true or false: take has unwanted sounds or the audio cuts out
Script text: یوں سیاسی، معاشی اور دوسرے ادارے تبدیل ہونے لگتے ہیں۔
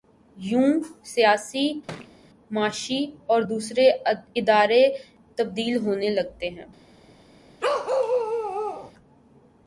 true